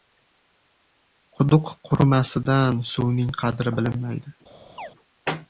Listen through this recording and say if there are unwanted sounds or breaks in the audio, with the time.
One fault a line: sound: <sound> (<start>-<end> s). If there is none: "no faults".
sound: chirp (4.8-4.9 s)